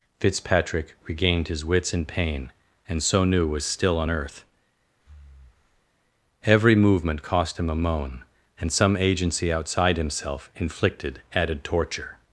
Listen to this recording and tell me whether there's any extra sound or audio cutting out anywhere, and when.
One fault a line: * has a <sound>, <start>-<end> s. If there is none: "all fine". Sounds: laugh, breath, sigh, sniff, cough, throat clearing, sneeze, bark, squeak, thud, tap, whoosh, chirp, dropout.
* has a breath, 5.0-5.9 s